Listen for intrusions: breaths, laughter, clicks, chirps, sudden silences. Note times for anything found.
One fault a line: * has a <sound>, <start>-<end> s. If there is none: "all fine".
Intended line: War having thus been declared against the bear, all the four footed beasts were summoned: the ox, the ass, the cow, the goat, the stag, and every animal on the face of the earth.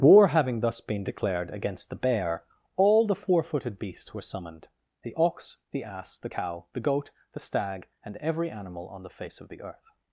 all fine